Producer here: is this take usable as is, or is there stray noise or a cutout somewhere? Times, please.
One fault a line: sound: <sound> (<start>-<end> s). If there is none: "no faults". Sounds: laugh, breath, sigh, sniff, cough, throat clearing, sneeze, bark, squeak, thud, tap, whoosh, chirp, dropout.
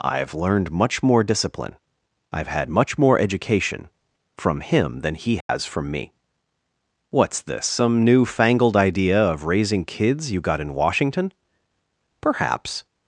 sound: dropout (5.4-5.5 s)